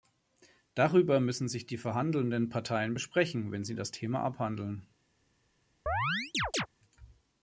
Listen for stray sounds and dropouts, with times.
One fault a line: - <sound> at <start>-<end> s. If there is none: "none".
- chirp at 5.9-6.7 s